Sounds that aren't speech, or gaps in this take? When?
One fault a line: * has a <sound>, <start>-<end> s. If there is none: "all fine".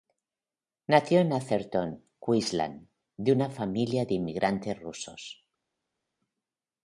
all fine